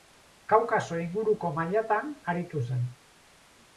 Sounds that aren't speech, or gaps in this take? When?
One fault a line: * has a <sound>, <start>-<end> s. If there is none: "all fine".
all fine